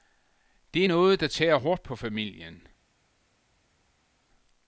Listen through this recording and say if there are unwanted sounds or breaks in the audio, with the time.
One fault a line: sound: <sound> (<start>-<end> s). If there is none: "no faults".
no faults